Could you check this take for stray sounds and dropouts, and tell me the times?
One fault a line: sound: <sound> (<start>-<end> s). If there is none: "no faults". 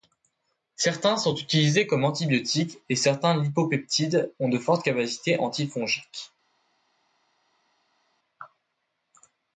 no faults